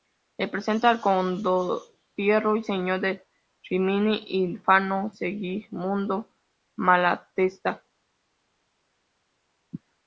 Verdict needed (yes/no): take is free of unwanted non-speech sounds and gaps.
yes